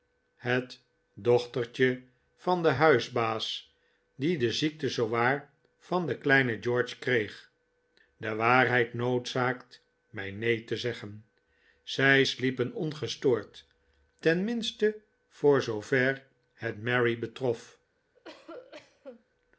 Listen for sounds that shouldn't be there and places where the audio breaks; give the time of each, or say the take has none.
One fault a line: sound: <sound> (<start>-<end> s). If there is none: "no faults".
sound: cough (18.1-19.2 s)